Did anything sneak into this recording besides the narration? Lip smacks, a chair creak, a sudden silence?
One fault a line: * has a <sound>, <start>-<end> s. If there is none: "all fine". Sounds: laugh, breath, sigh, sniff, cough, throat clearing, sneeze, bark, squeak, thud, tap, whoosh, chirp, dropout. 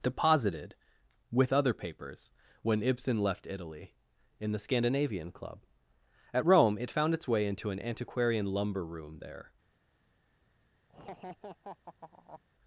* has a laugh, 10.9-12.4 s